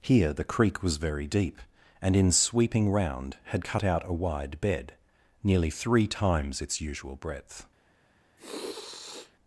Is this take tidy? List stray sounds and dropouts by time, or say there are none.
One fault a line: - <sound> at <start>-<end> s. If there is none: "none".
- sniff at 8.4-9.3 s